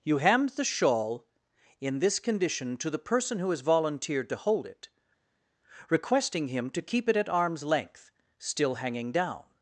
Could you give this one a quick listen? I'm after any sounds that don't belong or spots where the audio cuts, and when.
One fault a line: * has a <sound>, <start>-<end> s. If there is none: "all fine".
all fine